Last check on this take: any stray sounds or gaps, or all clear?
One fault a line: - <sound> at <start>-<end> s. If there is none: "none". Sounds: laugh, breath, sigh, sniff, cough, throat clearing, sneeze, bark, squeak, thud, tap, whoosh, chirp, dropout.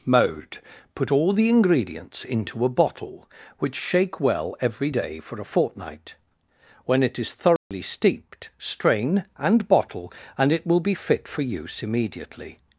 - dropout at 7.6-7.7 s